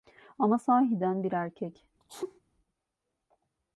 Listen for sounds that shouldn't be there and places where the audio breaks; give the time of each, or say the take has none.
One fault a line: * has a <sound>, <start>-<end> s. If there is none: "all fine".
* has a sneeze, 2.0-2.4 s